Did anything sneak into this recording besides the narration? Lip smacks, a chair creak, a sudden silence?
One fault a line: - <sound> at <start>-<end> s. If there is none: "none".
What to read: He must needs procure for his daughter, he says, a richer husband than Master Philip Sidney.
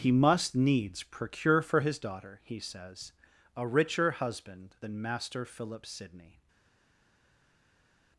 none